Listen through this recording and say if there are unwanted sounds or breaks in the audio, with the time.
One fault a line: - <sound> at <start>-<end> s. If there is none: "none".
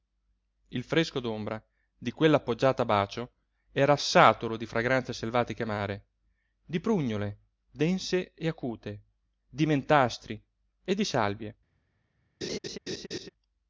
- laugh at 12.4-13.3 s